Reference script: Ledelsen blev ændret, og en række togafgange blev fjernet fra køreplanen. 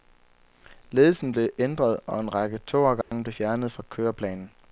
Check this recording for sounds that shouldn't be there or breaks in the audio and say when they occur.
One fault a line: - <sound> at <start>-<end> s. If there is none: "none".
- dropout at 3.0-3.1 s